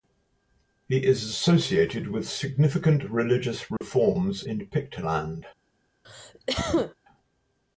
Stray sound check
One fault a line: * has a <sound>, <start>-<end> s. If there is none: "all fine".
* has a dropout, 3.8-3.8 s
* has a cough, 6.0-6.9 s